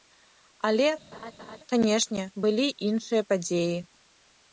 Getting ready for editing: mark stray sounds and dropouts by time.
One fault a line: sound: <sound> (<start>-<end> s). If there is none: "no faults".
sound: laugh (1.1-1.6 s)